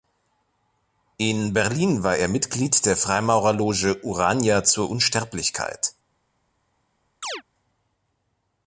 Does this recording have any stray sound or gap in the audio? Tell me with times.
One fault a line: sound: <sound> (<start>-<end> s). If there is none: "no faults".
sound: chirp (7.2-7.4 s)